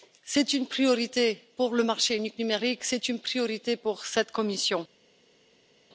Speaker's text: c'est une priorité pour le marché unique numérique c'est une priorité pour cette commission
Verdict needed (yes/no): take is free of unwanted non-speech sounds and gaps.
yes